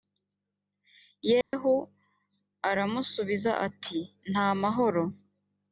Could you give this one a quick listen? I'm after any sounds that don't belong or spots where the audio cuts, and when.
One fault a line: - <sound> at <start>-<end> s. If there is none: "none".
- dropout at 1.4-1.5 s